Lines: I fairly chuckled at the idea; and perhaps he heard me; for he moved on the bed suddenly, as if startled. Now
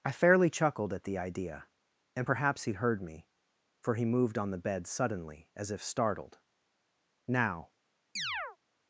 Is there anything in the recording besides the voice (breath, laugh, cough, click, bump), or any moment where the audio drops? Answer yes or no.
yes